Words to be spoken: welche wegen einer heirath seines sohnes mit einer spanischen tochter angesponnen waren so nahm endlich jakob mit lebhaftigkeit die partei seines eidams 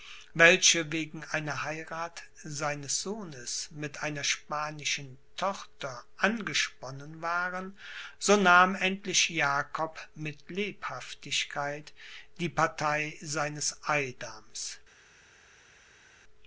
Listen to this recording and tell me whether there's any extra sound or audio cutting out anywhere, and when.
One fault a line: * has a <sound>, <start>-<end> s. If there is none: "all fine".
all fine